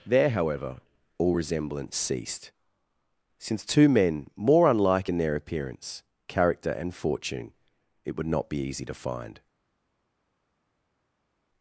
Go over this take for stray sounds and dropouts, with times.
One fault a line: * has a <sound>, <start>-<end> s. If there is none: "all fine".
all fine